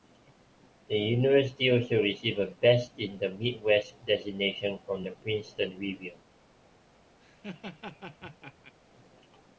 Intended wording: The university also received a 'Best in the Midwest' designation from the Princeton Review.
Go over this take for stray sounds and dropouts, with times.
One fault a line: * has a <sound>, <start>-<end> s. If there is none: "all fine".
* has a laugh, 7.2-8.7 s